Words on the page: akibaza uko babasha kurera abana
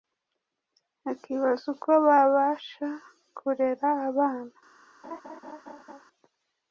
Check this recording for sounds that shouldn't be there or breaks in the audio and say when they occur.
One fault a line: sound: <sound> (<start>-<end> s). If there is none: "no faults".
sound: laugh (5.0-6.0 s)